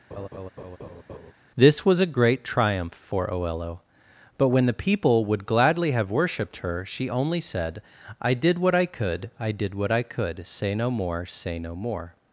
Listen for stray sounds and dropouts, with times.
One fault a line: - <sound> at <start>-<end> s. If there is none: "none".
- laugh at 0.1-1.3 s